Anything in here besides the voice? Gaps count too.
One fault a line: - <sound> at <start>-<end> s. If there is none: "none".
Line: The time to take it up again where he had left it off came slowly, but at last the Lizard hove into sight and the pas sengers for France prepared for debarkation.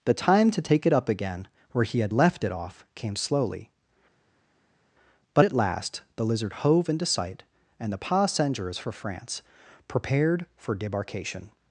none